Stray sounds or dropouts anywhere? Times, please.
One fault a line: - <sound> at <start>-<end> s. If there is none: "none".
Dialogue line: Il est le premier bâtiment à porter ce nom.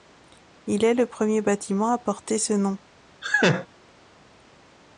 - laugh at 3.2-3.7 s